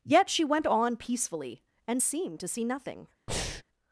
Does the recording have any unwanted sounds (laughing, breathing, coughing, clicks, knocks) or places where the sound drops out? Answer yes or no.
yes